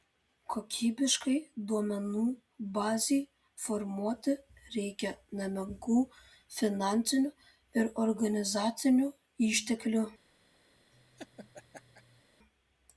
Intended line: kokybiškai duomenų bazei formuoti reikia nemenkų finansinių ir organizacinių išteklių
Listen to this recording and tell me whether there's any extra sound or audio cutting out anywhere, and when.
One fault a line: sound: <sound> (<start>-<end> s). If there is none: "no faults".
sound: laugh (10.9-12.2 s)